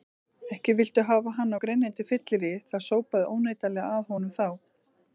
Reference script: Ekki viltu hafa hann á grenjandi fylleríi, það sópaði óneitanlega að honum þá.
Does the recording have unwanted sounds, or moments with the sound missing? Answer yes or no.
no